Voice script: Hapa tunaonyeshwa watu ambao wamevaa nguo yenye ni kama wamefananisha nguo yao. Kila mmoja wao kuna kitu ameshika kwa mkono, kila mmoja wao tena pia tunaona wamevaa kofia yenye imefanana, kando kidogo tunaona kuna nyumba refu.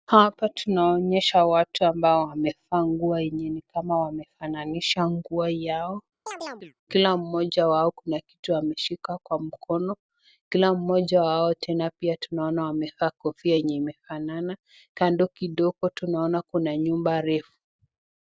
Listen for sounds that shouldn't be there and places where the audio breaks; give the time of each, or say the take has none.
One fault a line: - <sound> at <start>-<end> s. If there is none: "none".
- chirp at 6.3-6.7 s